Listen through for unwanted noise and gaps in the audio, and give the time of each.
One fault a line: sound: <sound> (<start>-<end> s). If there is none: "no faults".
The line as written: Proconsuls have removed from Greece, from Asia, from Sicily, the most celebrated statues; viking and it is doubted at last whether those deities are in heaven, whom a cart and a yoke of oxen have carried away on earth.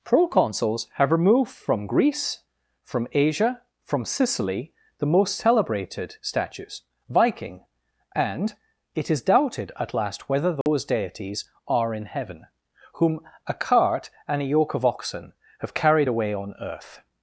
sound: dropout (10.6-10.7 s)